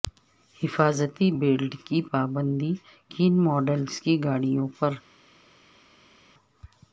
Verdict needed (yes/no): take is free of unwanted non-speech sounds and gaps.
yes